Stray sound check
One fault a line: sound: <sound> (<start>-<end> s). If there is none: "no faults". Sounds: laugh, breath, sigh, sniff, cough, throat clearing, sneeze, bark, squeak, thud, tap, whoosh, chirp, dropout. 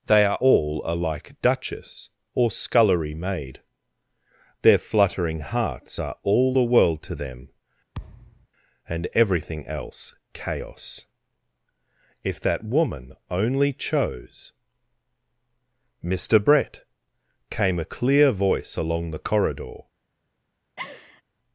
sound: thud (7.9-8.5 s)
sound: laugh (20.8-21.2 s)